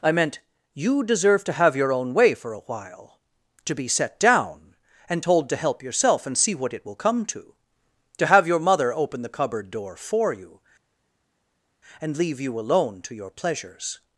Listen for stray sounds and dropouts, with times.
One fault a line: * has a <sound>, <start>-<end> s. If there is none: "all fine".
all fine